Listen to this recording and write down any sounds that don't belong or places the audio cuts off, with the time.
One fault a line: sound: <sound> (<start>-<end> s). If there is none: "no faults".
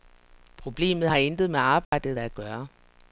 sound: dropout (1.8-1.9 s)